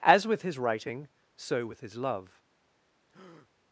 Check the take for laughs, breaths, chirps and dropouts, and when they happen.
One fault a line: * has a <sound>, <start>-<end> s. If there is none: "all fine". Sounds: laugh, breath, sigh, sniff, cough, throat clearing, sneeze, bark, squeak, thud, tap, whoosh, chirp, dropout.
* has a breath, 3.1-3.5 s